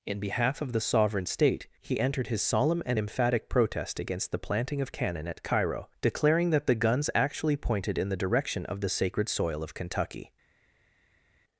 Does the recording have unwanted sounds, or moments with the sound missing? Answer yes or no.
no